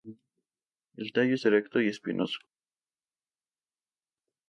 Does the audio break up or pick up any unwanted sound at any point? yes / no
no